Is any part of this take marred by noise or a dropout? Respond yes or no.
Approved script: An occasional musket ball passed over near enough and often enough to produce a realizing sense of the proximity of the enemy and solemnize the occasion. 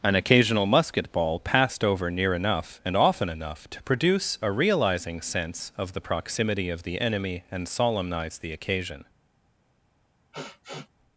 yes